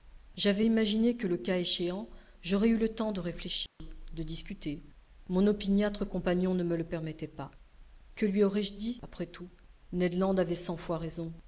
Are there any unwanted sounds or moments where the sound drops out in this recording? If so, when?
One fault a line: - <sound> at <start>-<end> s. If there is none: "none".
- dropout at 3.7-3.8 s